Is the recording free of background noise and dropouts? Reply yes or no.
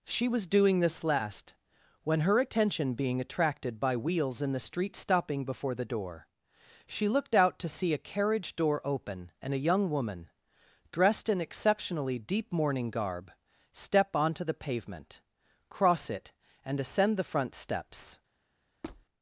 no